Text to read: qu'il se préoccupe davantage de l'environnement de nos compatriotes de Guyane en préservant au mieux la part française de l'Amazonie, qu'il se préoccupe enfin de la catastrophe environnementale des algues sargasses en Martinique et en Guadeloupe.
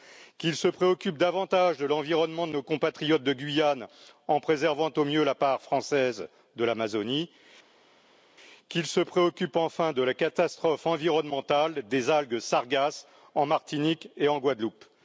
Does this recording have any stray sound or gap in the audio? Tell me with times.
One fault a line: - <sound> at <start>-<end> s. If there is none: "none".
none